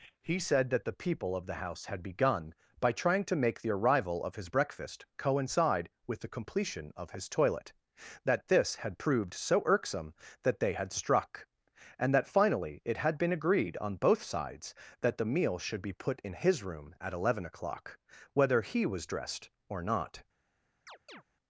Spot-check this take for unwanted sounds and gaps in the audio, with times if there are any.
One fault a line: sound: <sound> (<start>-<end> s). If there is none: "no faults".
sound: chirp (20.9-21.2 s)